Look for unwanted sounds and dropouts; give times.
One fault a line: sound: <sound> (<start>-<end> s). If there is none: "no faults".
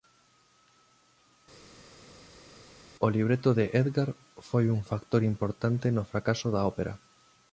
no faults